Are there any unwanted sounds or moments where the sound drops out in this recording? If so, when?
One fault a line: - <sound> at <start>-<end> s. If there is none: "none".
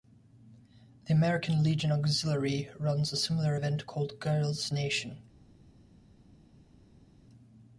none